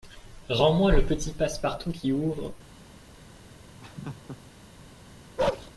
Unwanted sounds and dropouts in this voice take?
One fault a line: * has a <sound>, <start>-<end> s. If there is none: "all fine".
* has a laugh, 3.8-4.4 s
* has a bark, 5.4-5.7 s